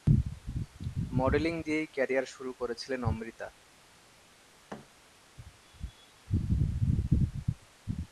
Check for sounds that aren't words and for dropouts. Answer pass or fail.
fail